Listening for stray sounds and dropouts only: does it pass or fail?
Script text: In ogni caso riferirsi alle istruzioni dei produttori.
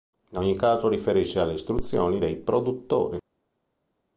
pass